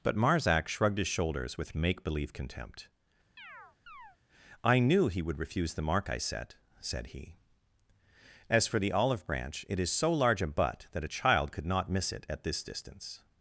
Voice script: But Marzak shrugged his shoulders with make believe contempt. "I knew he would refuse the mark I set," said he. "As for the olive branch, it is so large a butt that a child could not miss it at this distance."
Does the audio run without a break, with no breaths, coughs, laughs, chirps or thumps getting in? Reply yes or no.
no